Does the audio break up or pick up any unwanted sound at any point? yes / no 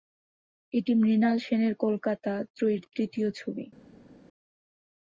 no